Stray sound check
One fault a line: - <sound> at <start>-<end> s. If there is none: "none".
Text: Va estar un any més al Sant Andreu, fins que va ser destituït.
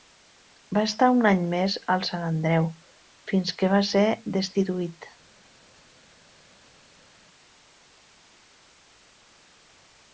none